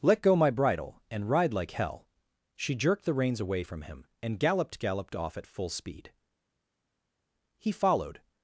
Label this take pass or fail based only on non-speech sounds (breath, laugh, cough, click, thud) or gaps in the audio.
pass